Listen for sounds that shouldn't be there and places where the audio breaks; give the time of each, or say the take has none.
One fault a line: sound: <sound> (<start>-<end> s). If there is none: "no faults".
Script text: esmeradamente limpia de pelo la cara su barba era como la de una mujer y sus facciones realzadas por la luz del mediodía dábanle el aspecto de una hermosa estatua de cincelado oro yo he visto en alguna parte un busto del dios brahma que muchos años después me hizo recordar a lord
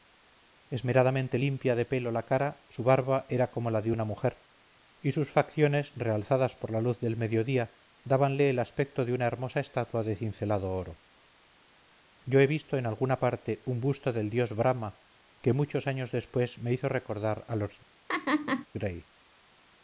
sound: laugh (18.1-18.7 s)